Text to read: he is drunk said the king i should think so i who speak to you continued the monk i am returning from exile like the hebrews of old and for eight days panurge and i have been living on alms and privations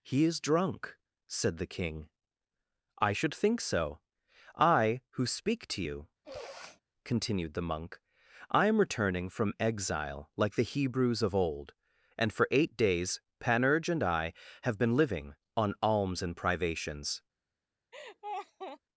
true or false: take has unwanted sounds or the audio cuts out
true